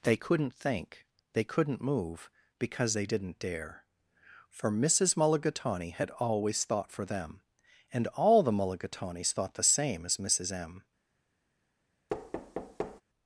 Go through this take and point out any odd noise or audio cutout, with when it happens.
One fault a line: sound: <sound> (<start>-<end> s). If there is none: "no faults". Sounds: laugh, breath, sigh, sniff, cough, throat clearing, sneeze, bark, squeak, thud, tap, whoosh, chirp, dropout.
sound: thud (12.1-13.0 s)